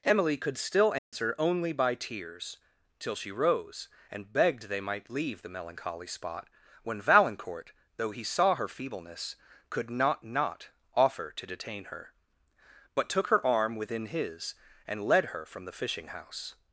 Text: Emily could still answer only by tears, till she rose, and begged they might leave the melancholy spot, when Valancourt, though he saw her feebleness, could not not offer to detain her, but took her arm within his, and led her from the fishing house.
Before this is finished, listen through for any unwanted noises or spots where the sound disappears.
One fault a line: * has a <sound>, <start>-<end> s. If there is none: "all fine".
* has a dropout, 1.0-1.1 s